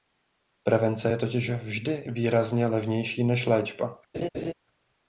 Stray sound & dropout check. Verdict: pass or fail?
fail